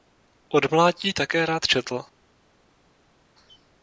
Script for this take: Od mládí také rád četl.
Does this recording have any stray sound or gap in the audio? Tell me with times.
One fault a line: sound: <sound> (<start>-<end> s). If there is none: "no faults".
no faults